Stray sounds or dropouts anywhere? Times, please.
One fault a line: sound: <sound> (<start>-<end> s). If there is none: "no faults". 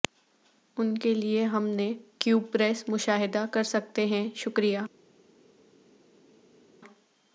no faults